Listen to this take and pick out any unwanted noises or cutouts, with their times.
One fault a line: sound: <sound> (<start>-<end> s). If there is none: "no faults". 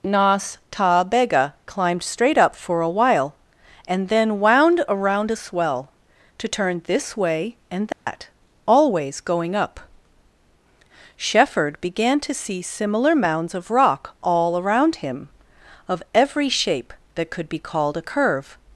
sound: dropout (7.9-8.1 s)